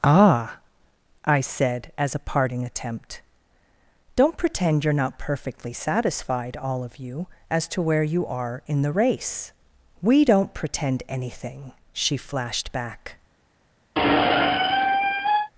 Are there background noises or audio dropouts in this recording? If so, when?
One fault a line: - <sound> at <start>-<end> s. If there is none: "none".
- squeak at 14.0-15.5 s